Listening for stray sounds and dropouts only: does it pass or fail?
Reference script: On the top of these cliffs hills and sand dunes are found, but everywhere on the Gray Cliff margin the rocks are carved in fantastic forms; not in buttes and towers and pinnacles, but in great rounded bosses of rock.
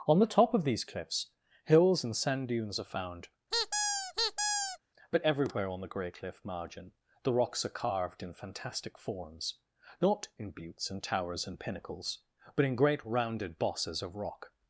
fail